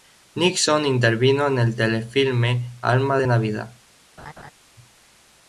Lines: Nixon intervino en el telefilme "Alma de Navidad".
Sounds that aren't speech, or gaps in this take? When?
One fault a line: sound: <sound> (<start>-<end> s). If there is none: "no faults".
sound: laugh (4.2-4.5 s)